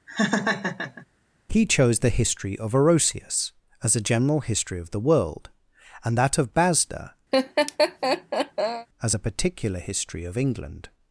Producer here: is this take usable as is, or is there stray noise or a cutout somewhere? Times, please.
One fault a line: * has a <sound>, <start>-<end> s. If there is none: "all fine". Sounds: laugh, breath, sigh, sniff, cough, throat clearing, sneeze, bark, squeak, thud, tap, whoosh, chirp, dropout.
* has a laugh, 0.1-1.1 s
* has a laugh, 7.3-8.9 s